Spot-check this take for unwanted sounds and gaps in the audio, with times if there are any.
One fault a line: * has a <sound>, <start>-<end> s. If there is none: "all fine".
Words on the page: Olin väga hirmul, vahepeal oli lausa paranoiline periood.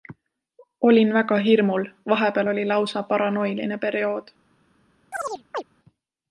* has a chirp, 5.1-5.6 s